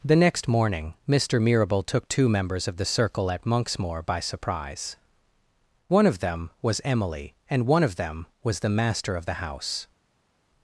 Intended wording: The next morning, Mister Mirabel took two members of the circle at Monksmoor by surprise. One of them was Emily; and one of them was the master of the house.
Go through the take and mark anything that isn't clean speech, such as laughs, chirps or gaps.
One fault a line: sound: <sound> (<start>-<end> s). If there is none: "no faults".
no faults